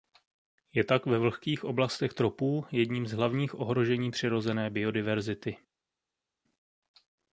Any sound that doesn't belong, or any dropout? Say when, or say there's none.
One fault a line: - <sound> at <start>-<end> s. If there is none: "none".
none